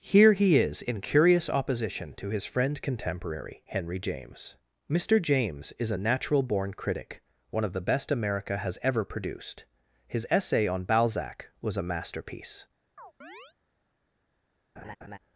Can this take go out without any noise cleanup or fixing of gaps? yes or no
no